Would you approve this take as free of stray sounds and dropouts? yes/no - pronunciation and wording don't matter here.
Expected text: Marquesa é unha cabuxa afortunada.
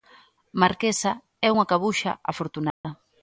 no